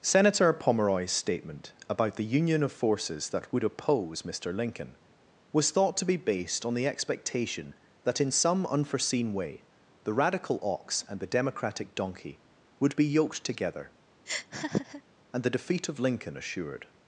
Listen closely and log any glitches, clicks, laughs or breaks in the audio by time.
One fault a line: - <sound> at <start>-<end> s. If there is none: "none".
- laugh at 14.3-15.0 s